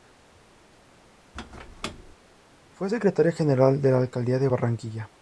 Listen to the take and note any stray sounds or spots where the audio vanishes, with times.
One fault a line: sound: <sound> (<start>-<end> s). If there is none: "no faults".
sound: squeak (1.3-2.2 s)